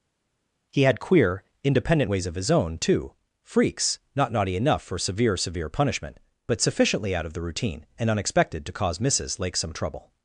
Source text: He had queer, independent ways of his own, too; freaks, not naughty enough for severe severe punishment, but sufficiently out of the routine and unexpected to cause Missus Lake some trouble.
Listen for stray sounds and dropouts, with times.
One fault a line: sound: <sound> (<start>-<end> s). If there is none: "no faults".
no faults